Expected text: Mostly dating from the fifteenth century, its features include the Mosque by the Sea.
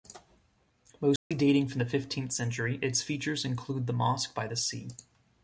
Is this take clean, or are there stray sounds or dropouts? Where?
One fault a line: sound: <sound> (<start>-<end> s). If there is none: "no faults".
sound: dropout (1.2-1.3 s)